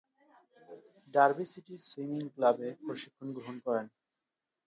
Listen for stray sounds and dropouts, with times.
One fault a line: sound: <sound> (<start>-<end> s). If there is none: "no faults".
no faults